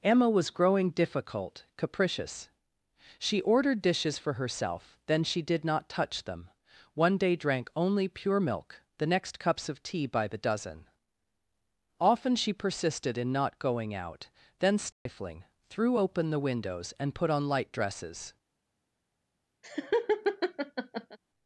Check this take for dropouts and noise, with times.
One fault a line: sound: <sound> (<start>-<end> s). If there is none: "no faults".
sound: dropout (14.9-15.1 s)
sound: laugh (19.6-21.2 s)